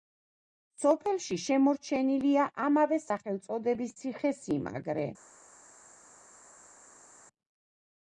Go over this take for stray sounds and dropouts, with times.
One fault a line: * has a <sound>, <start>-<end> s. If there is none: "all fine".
all fine